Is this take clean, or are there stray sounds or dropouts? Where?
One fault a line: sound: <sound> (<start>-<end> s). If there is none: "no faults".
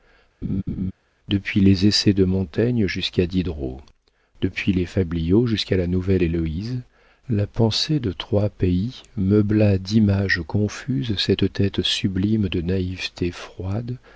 sound: laugh (0.4-0.9 s)